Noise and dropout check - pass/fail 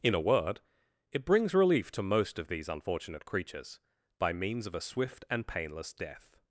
pass